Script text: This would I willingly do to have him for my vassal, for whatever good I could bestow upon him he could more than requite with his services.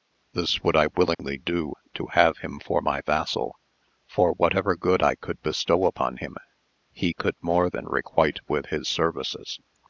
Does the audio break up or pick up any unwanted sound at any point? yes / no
yes